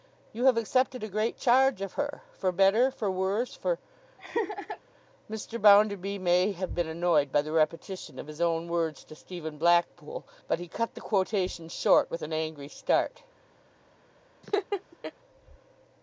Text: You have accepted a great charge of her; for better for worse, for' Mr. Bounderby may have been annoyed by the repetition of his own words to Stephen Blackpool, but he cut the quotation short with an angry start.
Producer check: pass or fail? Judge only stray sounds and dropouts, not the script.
fail